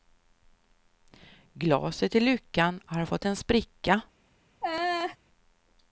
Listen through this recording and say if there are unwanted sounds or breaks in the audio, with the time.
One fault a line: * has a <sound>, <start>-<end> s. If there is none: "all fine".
* has a laugh, 4.6-5.2 s